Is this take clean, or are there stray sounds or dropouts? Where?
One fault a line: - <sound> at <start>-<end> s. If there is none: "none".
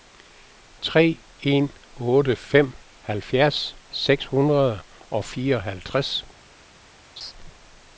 - laugh at 7.2-7.3 s